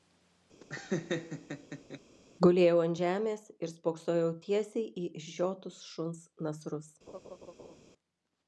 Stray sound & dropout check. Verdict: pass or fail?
fail